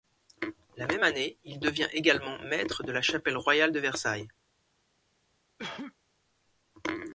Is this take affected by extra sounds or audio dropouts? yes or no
yes